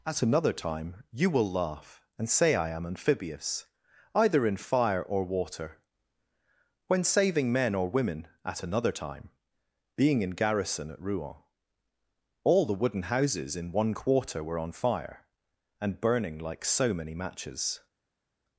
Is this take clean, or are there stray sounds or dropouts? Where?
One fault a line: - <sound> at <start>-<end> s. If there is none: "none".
none